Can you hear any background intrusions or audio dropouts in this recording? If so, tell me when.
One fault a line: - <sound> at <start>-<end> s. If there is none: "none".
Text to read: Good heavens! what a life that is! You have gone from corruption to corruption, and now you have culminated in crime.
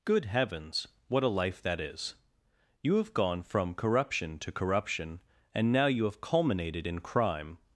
none